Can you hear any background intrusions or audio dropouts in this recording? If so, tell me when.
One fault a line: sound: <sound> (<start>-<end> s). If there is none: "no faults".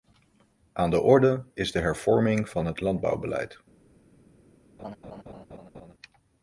sound: laugh (4.8-5.9 s)